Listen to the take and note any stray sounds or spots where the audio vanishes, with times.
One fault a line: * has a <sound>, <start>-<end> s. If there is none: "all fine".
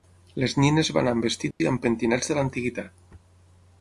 * has a dropout, 1.5-1.6 s